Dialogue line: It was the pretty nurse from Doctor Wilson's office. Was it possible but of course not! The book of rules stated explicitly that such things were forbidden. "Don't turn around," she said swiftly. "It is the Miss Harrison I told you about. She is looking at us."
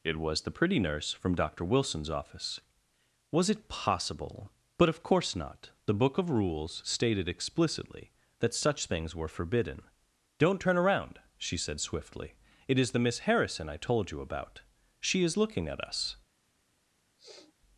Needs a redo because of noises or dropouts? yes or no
yes